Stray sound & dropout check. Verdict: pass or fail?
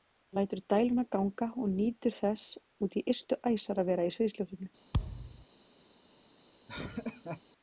fail